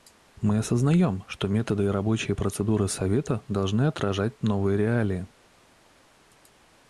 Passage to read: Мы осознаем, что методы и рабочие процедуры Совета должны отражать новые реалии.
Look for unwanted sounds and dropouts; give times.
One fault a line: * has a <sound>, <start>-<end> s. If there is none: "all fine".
all fine